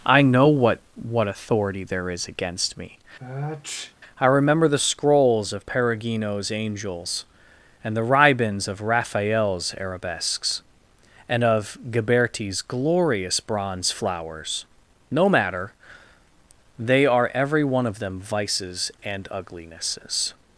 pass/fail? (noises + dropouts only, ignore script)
fail